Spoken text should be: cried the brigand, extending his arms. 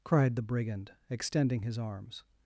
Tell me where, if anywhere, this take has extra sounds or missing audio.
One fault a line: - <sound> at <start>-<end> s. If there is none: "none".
none